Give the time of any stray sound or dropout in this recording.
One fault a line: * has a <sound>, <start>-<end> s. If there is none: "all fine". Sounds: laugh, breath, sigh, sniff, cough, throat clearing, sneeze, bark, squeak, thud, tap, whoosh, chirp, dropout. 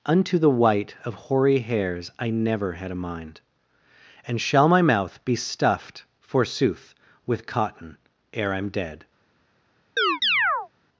* has a chirp, 10.0-10.7 s